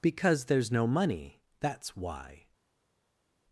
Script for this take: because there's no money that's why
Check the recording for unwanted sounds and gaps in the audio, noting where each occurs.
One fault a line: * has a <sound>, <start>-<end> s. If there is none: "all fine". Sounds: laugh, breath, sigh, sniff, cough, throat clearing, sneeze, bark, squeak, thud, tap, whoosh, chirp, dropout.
all fine